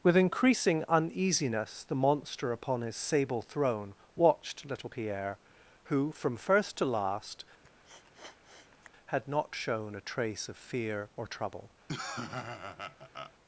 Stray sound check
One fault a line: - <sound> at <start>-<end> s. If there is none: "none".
- sniff at 7.6-8.9 s
- laugh at 11.9-13.3 s